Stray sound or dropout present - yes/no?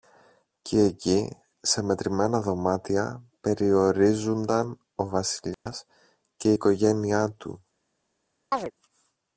yes